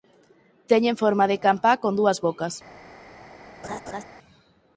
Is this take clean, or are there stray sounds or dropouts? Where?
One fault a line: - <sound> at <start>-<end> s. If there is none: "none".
- laugh at 3.6-4.0 s